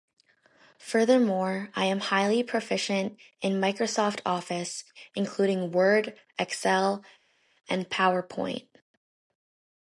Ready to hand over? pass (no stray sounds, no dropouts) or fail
pass